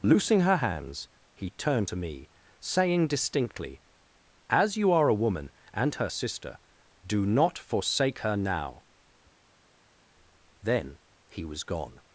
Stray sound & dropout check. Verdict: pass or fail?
pass